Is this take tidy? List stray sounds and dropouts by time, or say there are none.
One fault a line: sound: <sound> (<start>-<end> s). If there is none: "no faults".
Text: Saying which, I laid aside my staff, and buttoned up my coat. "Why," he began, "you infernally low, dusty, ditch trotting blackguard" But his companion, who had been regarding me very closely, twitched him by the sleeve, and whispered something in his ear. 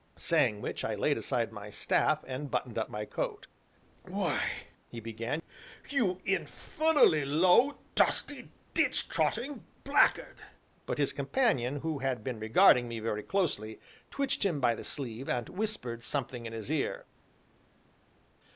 no faults